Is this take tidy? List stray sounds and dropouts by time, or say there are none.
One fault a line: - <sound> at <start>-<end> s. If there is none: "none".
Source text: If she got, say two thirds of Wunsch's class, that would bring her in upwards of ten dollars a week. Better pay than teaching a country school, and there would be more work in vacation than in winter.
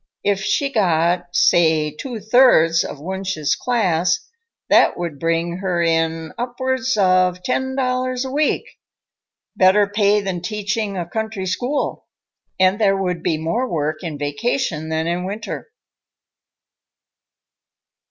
none